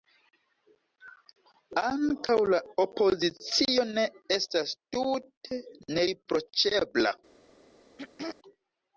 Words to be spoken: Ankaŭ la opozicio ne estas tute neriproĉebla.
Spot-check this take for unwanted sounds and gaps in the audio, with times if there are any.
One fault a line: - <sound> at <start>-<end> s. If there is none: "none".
- throat clearing at 7.9-8.4 s